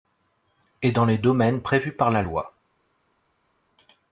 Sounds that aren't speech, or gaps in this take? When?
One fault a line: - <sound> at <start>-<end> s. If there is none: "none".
none